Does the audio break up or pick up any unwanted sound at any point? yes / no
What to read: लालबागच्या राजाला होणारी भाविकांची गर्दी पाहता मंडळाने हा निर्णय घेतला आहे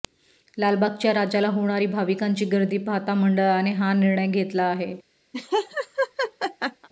yes